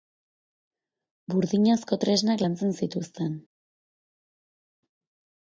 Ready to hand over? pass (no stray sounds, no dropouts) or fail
pass